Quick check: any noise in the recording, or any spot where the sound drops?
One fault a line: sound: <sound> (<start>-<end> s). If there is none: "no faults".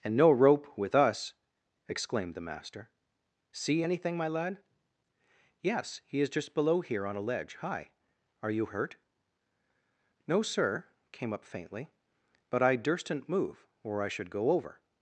no faults